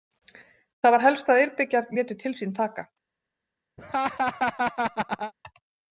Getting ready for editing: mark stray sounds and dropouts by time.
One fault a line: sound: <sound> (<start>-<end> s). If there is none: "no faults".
sound: laugh (3.8-5.3 s)